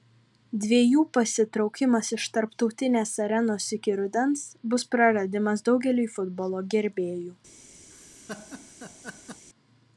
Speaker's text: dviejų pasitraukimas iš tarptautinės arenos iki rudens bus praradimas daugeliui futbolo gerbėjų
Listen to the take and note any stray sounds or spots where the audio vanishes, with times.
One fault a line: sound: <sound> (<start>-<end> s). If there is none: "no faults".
sound: laugh (7.9-9.4 s)